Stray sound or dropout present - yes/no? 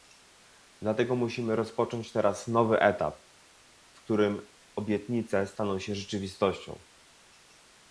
no